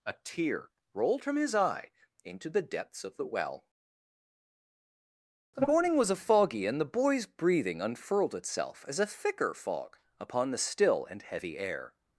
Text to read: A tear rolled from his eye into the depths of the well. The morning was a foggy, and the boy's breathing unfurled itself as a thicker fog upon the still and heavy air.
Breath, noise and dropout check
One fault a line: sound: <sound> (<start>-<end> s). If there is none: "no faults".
no faults